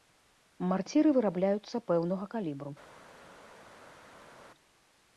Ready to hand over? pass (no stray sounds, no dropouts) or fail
pass